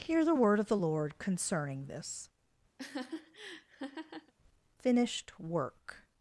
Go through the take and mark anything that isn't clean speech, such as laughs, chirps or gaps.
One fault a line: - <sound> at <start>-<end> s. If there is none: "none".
- laugh at 2.8-4.3 s